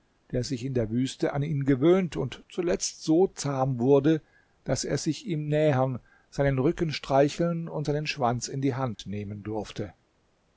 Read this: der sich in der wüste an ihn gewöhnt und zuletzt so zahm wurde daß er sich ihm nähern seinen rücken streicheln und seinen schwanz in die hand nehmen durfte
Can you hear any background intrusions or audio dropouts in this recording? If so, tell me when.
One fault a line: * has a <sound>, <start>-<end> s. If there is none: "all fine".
* has a dropout, 8.9-9.0 s